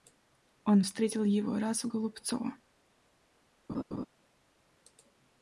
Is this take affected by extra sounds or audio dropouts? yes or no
yes